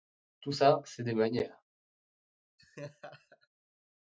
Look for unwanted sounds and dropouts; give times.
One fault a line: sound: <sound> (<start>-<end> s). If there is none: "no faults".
sound: laugh (2.6-3.5 s)